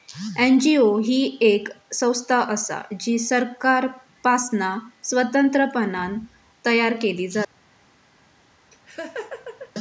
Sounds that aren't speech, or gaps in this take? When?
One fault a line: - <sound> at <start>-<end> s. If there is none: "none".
- laugh at 8.7-9.7 s